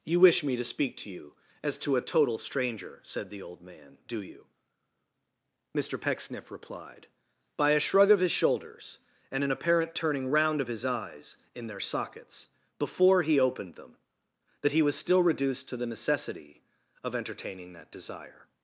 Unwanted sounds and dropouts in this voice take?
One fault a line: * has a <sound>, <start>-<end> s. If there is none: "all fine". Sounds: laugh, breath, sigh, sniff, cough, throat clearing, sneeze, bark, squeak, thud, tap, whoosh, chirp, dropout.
all fine